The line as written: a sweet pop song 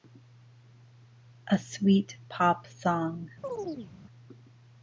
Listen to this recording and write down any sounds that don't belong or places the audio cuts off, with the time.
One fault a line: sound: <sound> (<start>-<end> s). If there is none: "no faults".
sound: chirp (3.4-3.9 s)